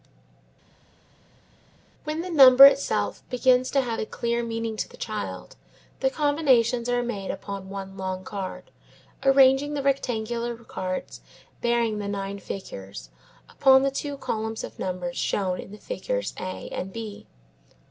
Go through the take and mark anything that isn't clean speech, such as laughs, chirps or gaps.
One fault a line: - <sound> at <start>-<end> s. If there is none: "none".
none